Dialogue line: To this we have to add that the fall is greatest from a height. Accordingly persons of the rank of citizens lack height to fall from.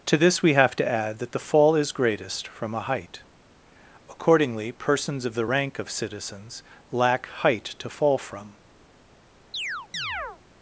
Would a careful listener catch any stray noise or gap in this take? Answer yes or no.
yes